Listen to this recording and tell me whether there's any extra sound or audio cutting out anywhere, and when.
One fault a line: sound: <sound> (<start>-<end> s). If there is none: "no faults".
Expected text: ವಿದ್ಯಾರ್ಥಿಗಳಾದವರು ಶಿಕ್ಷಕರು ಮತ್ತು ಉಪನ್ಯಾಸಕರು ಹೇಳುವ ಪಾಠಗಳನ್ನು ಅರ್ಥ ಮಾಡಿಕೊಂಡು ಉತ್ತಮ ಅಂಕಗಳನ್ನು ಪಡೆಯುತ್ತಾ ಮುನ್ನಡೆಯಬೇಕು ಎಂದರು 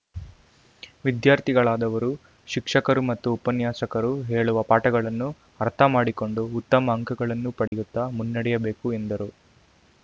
sound: dropout (7.7-7.7 s)